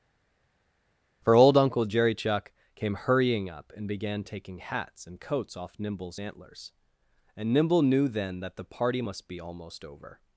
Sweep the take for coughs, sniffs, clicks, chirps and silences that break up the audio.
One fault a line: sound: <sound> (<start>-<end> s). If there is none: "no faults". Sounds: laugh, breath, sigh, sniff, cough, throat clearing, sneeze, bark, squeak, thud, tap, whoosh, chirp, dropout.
no faults